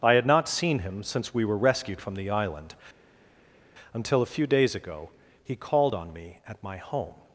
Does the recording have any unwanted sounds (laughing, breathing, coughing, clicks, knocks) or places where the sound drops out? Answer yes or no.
no